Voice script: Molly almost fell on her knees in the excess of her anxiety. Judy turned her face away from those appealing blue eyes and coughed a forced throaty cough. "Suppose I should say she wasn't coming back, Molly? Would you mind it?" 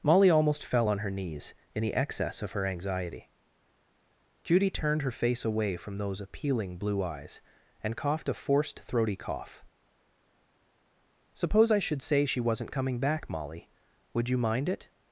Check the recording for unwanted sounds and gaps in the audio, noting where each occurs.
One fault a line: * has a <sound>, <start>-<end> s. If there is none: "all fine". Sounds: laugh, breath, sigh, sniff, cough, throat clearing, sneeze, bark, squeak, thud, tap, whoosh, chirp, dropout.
all fine